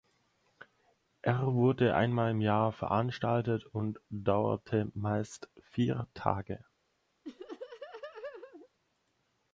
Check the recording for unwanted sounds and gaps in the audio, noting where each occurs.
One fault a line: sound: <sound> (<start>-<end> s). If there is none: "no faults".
sound: laugh (7.2-8.7 s)